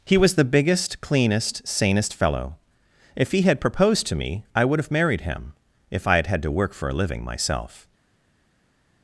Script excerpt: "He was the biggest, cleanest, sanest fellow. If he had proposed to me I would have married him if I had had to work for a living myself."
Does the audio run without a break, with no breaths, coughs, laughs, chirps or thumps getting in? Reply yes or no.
yes